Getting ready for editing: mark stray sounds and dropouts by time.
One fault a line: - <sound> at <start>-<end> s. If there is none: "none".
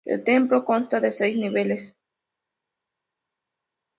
none